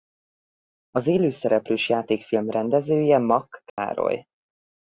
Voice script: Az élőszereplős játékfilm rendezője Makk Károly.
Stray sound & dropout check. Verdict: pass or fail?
fail